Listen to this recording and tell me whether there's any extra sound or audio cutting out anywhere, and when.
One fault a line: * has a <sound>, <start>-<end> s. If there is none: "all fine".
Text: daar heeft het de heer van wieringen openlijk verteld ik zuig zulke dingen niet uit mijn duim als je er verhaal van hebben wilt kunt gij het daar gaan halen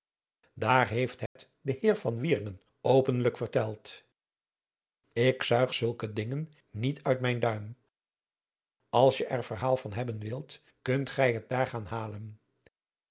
* has a dropout, 1.3-1.4 s